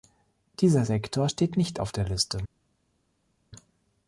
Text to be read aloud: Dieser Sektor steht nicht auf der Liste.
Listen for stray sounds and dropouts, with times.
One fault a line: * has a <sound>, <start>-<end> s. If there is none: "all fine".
all fine